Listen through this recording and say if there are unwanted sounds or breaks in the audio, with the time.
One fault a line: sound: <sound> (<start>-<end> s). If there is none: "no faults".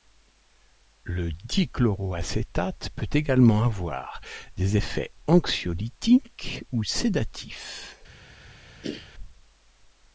sound: throat clearing (8.8-9.1 s)